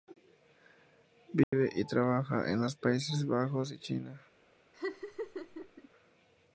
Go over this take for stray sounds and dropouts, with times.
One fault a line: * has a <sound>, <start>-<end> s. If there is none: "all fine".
* has a dropout, 1.4-1.5 s
* has a laugh, 4.7-5.9 s